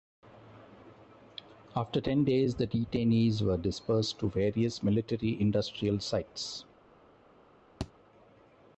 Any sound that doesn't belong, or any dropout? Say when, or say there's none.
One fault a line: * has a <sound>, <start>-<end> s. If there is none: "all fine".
* has a thud, 7.8-7.9 s